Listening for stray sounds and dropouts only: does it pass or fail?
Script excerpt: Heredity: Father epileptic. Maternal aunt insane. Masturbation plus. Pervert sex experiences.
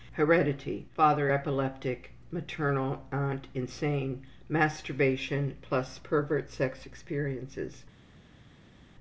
pass